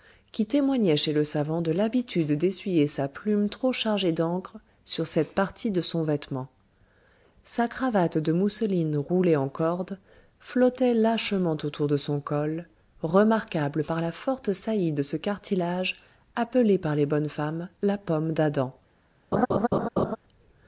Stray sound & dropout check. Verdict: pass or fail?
fail